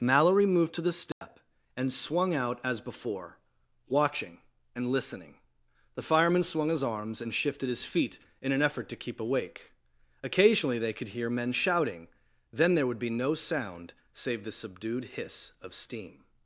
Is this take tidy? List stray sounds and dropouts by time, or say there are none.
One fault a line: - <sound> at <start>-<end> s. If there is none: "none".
- dropout at 1.1-1.2 s